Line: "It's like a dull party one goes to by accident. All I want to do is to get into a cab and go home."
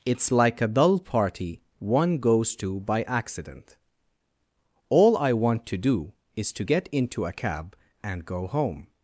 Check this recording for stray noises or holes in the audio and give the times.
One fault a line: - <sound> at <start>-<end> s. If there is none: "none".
none